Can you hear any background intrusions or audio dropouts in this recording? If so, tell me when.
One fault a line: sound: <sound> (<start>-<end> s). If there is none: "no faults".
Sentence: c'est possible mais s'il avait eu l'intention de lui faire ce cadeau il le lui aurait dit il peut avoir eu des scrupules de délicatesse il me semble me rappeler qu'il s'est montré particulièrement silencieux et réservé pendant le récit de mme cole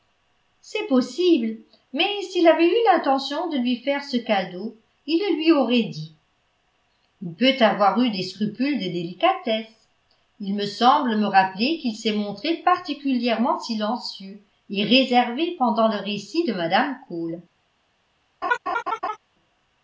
sound: laugh (18.4-19.2 s)